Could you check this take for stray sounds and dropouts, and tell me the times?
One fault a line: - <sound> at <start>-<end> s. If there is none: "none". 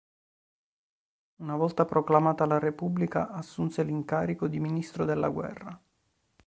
none